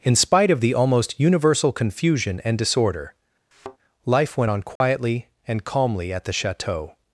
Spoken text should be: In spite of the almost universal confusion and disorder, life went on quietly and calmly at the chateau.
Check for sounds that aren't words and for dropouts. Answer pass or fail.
fail